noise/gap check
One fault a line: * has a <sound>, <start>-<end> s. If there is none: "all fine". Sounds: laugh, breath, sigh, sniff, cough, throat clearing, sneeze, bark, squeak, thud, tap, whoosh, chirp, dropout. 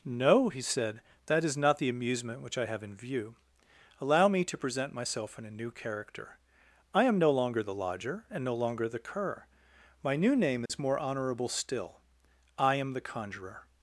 * has a dropout, 10.7-10.7 s